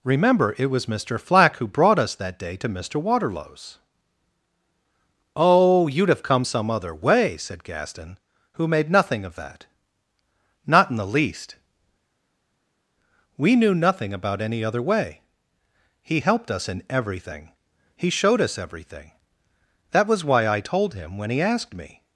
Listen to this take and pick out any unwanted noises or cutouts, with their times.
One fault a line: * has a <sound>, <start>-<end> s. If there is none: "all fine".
all fine